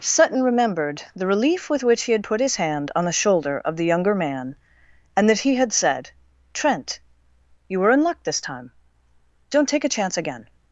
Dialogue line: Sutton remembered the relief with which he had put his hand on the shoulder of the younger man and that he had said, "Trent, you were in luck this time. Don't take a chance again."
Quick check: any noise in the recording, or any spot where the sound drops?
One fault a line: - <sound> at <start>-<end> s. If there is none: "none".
none